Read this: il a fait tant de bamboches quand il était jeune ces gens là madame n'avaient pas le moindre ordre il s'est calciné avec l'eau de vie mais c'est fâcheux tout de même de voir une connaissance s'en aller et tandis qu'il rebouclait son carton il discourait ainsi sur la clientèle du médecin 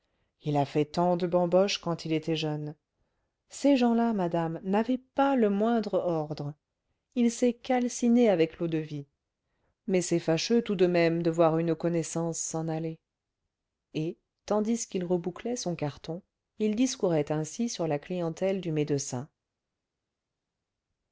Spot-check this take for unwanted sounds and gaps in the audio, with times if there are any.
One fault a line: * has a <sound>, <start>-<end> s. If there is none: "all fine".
all fine